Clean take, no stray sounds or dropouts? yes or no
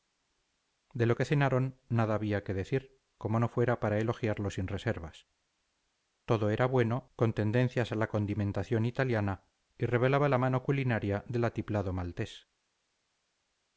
yes